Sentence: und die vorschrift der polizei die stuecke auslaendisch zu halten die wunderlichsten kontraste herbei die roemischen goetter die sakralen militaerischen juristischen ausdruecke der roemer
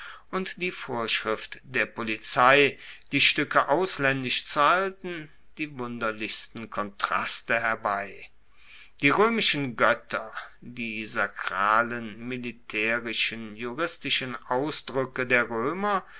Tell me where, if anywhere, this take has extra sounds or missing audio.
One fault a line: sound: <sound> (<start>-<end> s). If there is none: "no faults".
no faults